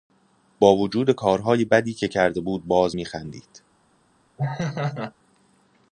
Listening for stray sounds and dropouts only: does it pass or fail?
fail